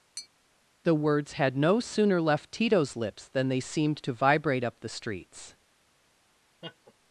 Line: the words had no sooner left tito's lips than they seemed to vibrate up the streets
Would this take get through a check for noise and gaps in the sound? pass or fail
fail